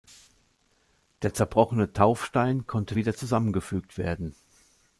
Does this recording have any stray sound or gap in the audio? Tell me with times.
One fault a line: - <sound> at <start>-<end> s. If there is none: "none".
none